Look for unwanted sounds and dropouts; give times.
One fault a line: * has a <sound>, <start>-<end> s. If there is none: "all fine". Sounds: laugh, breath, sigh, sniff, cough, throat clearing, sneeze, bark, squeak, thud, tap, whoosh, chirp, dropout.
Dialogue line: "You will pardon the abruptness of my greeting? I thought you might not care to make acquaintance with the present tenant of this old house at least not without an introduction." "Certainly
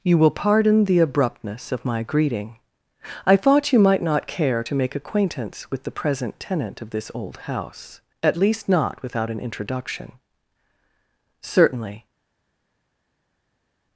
all fine